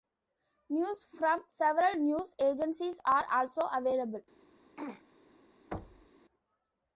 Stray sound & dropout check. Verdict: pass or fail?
fail